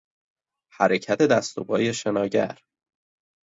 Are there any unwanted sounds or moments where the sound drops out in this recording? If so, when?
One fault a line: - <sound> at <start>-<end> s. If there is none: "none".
none